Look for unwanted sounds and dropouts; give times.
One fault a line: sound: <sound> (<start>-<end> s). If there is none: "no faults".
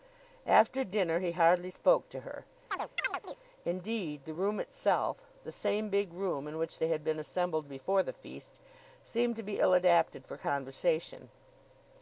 sound: chirp (2.7-3.4 s)